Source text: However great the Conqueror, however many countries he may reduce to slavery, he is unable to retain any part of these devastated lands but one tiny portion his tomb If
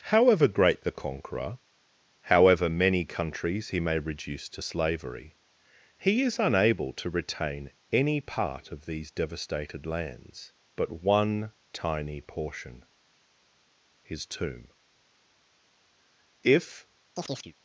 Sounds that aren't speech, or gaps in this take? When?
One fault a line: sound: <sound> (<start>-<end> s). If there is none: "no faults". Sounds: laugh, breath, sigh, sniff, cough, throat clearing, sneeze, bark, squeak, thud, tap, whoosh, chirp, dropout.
sound: chirp (17.2-17.5 s)